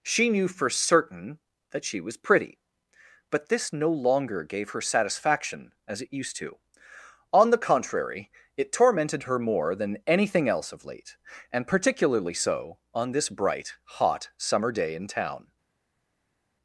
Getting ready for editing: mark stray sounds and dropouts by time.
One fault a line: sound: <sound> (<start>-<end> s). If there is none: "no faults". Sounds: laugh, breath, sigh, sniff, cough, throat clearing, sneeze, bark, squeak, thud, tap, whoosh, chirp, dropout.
no faults